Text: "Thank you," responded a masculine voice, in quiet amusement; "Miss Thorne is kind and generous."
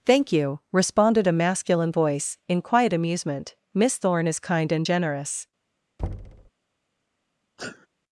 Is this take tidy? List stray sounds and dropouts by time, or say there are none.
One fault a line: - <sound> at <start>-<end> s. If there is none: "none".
- thud at 6.0-6.5 s
- sneeze at 7.6-7.9 s